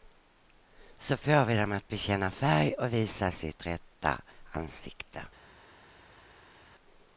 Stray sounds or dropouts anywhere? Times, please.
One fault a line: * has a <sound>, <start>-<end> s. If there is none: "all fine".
all fine